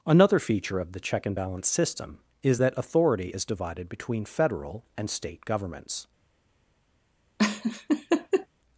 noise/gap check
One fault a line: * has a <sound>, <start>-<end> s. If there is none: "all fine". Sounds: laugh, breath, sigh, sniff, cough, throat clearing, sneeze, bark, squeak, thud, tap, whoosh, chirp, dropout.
* has a laugh, 7.4-8.5 s